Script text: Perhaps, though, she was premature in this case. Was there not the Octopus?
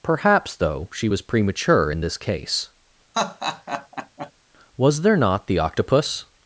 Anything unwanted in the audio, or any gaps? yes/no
yes